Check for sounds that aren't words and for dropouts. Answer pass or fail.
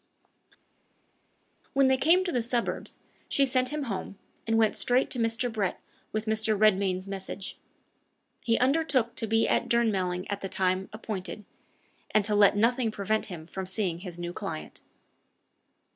pass